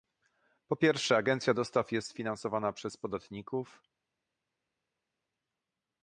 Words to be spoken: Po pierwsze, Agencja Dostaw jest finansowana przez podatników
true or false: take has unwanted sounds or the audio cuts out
false